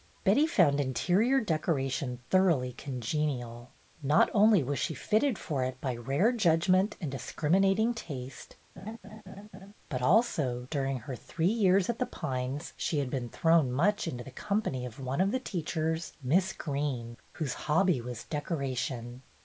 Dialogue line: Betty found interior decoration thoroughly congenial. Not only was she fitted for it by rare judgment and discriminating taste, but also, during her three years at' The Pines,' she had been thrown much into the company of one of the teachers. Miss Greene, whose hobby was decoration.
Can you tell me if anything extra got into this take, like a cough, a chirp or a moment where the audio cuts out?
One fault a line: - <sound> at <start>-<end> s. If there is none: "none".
- laugh at 8.8-9.7 s